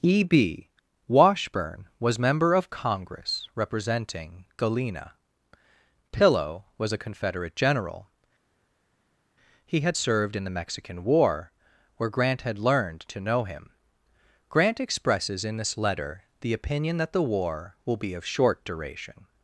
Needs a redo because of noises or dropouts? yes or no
no